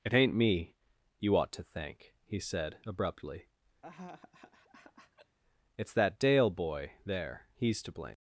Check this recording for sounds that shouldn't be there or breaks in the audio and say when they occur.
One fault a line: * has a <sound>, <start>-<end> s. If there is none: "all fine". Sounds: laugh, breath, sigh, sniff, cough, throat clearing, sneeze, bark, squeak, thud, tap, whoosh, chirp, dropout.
* has a laugh, 3.8-5.4 s